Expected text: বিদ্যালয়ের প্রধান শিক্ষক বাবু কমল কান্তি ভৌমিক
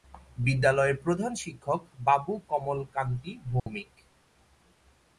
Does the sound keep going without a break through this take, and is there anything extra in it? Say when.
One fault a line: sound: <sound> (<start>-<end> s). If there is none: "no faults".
sound: dropout (3.6-3.7 s)